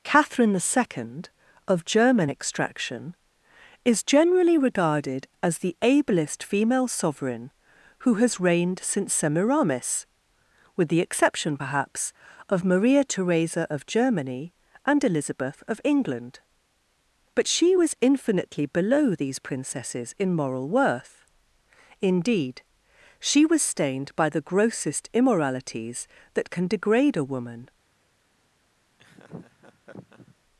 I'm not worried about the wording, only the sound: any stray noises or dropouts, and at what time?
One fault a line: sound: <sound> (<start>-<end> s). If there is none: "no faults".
sound: laugh (29.0-30.4 s)